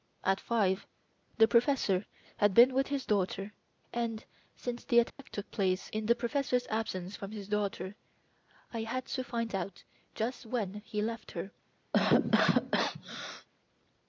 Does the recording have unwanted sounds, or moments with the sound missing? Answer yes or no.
yes